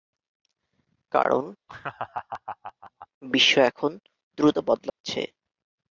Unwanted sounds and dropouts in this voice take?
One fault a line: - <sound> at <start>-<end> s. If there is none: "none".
- laugh at 1.7-3.1 s
- dropout at 4.9-5.0 s